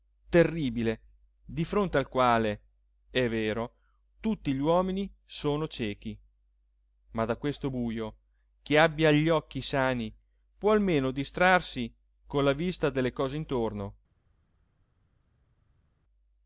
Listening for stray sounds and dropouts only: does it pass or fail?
pass